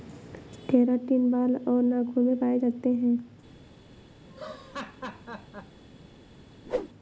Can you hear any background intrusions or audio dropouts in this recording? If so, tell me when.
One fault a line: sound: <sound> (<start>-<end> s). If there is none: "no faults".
sound: laugh (4.3-5.8 s)
sound: whoosh (6.6-6.9 s)